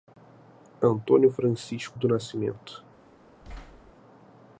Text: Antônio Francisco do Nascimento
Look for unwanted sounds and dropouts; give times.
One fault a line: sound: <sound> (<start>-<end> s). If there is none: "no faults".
sound: thud (3.4-3.9 s)